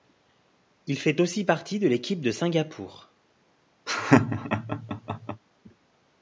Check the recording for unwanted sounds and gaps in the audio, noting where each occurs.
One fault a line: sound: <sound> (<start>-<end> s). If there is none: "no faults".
sound: laugh (3.9-5.4 s)